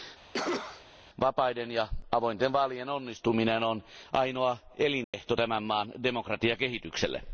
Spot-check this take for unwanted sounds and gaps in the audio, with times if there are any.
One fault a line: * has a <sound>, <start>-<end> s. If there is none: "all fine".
* has a cough, 0.3-0.9 s
* has a dropout, 5.0-5.1 s